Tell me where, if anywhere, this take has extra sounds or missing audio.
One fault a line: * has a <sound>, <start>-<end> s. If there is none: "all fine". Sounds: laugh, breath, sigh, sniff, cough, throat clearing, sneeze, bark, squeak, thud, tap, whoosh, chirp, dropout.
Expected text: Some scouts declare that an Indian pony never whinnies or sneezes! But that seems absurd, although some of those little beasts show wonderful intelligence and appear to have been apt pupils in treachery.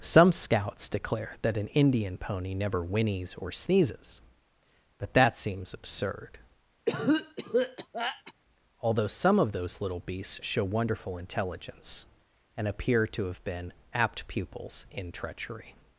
* has a cough, 6.9-8.3 s